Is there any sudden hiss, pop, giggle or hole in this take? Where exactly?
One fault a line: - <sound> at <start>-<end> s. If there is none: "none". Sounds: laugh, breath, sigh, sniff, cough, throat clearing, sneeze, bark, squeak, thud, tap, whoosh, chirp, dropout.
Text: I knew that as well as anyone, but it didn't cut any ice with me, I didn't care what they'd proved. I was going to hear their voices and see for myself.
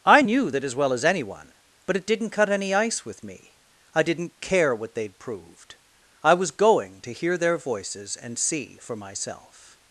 none